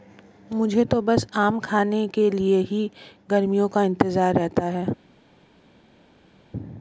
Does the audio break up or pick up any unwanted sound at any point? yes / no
no